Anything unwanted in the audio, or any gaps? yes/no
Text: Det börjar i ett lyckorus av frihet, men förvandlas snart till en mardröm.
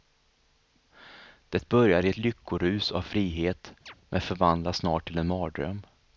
yes